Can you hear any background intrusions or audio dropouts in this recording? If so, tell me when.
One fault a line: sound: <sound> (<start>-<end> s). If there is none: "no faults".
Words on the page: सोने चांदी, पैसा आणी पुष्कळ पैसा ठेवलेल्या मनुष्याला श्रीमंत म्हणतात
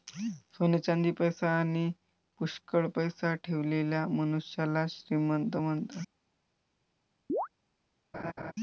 sound: chirp (7.3-7.5 s)
sound: laugh (8.1-8.5 s)